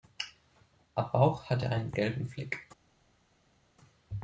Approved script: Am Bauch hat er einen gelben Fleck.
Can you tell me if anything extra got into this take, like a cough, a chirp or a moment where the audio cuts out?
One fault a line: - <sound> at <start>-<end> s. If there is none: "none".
none